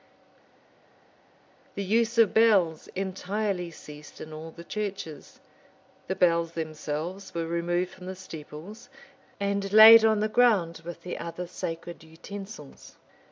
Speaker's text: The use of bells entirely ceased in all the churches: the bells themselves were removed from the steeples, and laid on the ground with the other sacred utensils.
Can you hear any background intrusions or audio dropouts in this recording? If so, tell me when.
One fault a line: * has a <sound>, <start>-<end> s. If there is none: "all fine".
all fine